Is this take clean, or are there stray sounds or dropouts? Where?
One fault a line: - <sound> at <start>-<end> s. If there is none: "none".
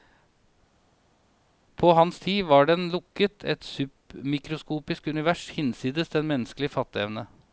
none